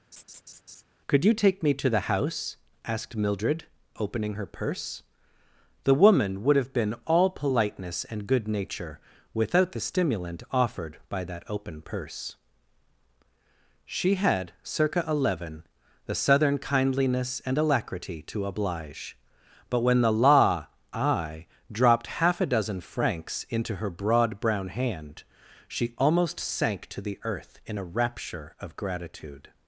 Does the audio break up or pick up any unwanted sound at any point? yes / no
yes